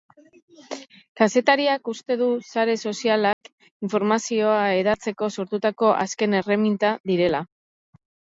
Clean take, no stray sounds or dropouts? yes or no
no